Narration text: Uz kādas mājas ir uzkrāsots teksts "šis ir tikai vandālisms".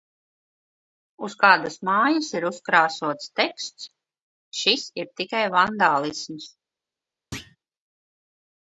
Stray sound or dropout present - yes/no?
yes